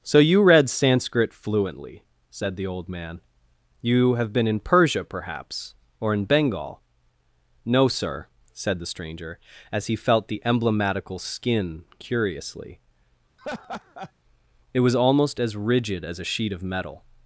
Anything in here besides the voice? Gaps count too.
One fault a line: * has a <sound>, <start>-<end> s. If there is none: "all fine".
* has a laugh, 13.4-14.1 s